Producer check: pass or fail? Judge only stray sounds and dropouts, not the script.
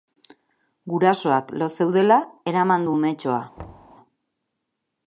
fail